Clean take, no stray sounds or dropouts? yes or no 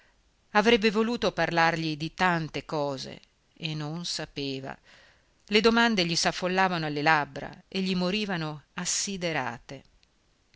yes